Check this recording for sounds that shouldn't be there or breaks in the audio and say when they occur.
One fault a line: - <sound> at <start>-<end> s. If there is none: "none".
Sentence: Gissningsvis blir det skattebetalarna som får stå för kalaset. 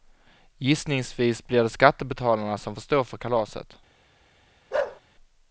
- bark at 4.7-5.0 s